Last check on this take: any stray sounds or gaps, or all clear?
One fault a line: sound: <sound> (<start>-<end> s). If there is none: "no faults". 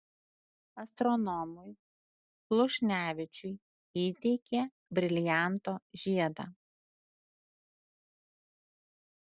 no faults